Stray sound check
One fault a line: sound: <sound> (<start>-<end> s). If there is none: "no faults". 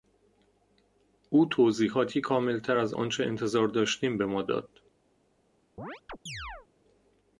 sound: chirp (5.8-6.7 s)